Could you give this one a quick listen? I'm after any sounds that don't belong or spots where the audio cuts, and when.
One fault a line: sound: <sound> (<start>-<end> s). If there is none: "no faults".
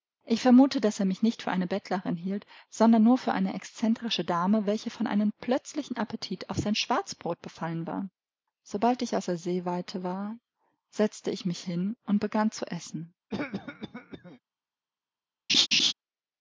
sound: cough (13.3-14.4 s)
sound: laugh (15.5-15.9 s)